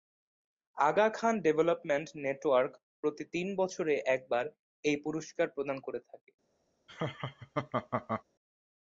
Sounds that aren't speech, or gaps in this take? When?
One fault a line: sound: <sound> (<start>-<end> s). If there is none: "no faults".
sound: laugh (6.9-8.2 s)